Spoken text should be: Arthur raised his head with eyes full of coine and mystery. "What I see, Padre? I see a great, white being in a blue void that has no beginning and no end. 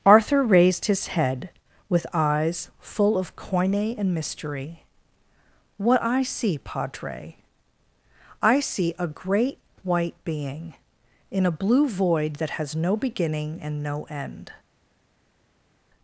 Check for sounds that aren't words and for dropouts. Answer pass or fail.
pass